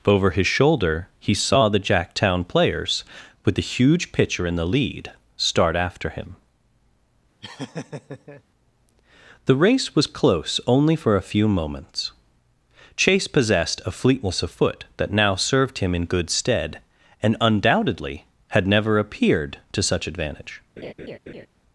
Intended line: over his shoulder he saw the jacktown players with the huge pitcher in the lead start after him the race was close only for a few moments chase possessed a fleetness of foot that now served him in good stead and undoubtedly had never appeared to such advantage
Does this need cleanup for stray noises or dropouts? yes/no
yes